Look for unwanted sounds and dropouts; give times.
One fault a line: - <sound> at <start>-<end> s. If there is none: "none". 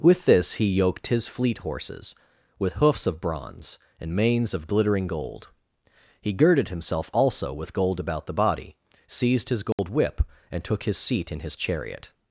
- dropout at 9.7-9.8 s